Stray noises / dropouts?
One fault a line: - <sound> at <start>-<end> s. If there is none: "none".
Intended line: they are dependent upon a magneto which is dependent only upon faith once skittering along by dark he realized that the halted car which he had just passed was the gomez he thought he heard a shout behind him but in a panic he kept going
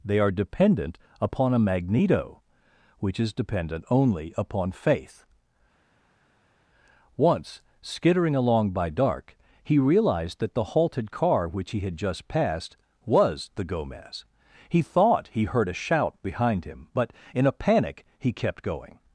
none